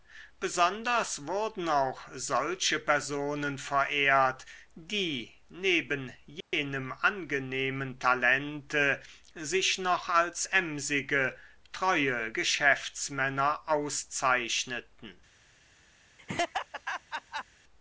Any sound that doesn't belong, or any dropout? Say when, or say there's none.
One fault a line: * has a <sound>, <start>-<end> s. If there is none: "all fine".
* has a dropout, 6.4-6.5 s
* has a laugh, 16.2-17.4 s